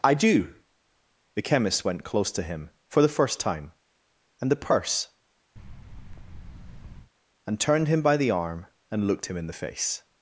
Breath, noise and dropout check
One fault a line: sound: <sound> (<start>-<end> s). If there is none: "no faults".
sound: thud (5.6-7.1 s)